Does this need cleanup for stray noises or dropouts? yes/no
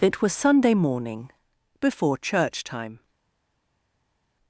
no